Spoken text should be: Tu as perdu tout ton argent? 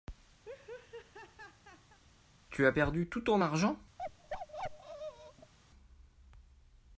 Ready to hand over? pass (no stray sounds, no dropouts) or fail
fail